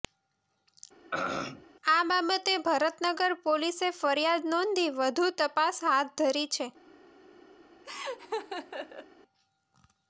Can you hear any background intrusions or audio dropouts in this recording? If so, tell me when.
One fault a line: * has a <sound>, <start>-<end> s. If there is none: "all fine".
* has a throat clearing, 1.1-1.7 s
* has a laugh, 7.8-9.1 s